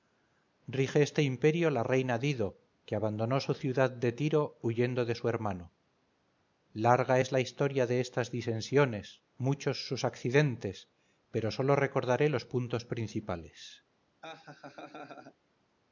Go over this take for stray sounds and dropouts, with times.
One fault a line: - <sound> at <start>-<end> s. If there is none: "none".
- laugh at 14.2-15.4 s